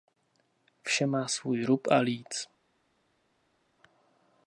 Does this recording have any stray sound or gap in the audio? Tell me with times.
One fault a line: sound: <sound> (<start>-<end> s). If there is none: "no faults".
no faults